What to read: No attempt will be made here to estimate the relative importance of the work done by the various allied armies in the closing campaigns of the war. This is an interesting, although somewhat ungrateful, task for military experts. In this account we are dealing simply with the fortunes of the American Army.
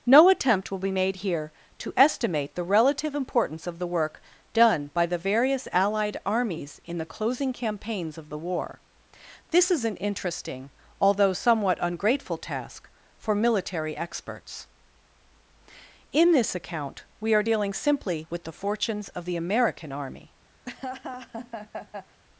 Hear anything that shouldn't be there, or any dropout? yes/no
yes